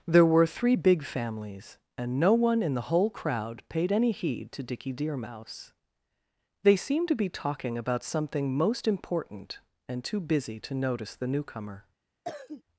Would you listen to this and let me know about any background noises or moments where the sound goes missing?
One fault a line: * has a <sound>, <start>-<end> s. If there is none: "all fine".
* has a cough, 12.2-12.6 s